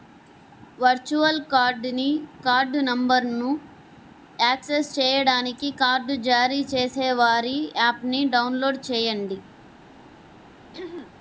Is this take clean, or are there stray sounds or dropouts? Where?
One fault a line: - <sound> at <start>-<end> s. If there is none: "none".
- throat clearing at 10.7-11.1 s